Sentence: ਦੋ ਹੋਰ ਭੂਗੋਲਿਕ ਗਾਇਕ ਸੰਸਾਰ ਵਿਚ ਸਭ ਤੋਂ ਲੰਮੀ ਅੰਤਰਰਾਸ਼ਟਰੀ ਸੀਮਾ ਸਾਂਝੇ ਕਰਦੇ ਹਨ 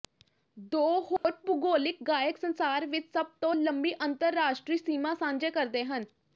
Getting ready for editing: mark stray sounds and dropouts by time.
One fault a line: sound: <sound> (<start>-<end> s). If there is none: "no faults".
sound: dropout (1.2-1.2 s)